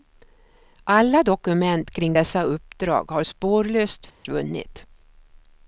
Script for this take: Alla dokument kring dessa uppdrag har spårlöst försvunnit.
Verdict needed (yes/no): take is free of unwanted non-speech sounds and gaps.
no